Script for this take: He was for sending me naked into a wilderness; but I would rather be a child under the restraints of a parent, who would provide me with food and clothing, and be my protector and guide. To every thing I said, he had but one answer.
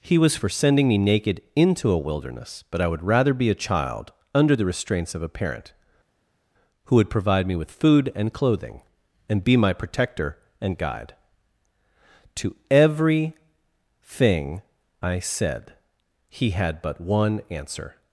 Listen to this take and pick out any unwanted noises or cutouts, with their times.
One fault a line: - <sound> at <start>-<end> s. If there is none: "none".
none